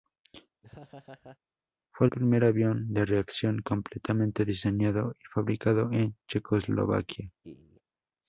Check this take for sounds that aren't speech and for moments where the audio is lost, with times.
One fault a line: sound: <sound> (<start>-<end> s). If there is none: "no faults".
sound: laugh (0.6-1.4 s)
sound: laugh (7.4-7.8 s)